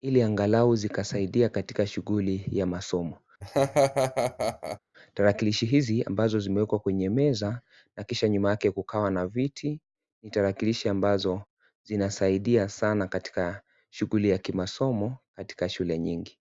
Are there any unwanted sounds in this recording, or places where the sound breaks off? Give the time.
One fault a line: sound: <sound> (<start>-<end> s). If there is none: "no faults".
sound: laugh (3.4-4.8 s)